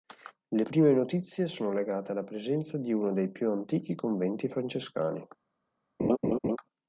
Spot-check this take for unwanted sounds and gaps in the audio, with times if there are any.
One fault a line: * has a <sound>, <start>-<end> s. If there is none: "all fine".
* has a laugh, 6.0-6.6 s